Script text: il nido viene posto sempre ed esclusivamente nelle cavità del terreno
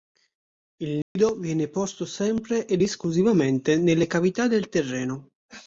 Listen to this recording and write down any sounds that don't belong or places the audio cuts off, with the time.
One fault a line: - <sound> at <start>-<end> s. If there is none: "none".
- dropout at 1.0-1.2 s